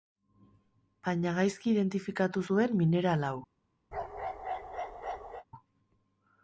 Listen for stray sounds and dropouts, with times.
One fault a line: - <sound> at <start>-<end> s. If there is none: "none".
- bark at 3.9-5.4 s